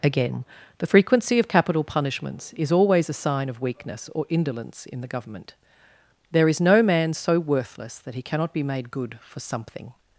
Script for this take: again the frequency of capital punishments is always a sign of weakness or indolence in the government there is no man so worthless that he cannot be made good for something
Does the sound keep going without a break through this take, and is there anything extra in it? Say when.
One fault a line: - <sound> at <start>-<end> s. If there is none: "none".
none